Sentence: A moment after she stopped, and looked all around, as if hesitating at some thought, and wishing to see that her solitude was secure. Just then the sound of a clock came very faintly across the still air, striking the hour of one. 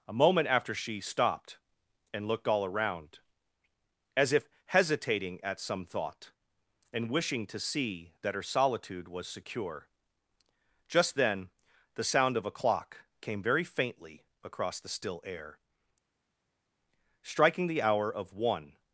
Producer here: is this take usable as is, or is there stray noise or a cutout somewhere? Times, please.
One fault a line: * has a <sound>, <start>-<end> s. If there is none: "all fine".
all fine